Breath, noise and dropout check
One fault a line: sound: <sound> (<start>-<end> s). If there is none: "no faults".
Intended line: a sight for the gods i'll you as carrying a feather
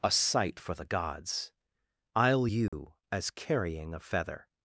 sound: dropout (2.7-2.7 s)